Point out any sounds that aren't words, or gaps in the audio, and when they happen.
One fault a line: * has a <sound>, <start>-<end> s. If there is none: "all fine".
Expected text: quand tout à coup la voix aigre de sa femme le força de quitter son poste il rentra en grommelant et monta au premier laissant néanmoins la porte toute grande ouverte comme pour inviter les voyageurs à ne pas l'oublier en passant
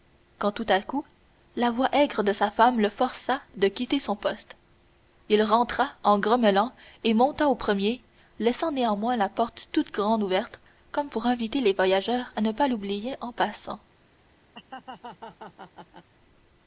* has a laugh, 14.5-16.1 s